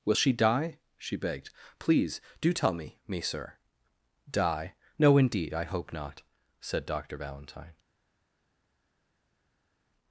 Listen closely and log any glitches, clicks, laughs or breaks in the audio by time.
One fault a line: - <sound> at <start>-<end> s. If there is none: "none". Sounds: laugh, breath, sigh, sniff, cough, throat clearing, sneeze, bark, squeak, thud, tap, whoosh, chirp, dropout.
none